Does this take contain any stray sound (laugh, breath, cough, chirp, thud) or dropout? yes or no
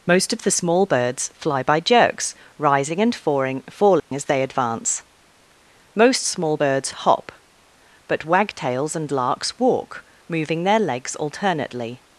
yes